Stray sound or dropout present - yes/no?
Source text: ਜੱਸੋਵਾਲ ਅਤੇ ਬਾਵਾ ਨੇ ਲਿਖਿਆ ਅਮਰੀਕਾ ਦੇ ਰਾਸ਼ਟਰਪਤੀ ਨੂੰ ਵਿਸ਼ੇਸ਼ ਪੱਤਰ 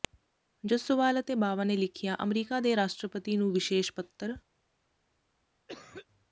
yes